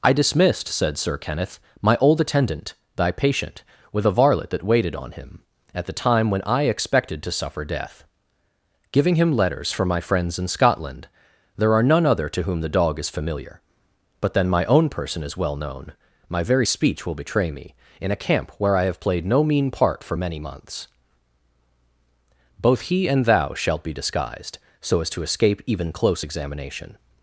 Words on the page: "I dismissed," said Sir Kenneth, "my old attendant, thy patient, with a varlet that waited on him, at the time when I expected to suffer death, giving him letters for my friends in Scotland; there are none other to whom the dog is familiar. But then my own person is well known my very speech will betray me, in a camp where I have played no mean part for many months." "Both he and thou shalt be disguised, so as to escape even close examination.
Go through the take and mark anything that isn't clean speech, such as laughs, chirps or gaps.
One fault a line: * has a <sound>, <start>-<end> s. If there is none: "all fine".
all fine